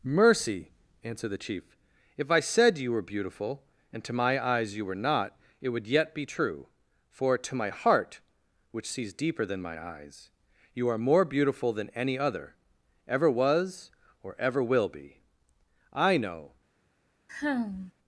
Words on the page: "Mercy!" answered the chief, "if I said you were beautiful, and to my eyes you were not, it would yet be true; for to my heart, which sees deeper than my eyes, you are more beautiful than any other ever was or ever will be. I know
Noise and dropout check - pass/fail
fail